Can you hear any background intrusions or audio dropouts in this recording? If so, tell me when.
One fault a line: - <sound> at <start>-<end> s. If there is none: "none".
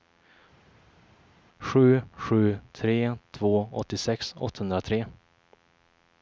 none